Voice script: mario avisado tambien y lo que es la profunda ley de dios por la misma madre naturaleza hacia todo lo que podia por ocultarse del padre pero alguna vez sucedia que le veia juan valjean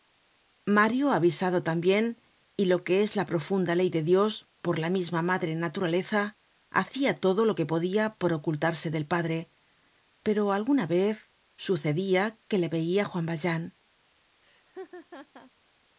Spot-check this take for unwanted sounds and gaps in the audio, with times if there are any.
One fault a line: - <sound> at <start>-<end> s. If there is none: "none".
- laugh at 14.4-15.5 s